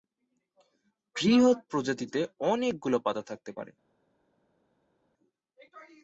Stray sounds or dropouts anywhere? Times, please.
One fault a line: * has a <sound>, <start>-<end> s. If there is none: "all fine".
all fine